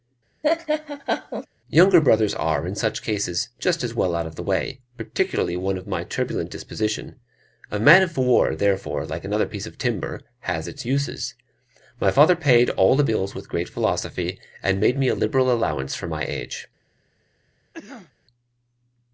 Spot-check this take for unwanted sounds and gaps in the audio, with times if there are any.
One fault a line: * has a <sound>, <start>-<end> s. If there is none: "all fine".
* has a laugh, 0.4-1.5 s
* has a cough, 17.7-18.1 s